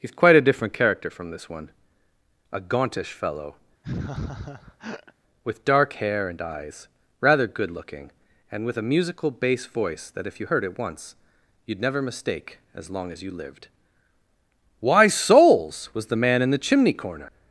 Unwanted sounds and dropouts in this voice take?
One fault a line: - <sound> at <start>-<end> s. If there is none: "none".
- laugh at 3.8-5.1 s